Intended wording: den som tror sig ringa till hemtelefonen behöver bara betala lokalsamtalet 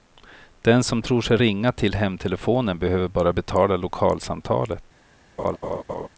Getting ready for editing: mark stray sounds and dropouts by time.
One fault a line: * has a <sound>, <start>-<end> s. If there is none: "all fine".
* has a laugh, 5.4-6.1 s